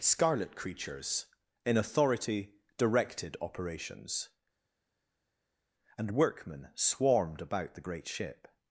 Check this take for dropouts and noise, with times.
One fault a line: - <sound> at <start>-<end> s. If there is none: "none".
none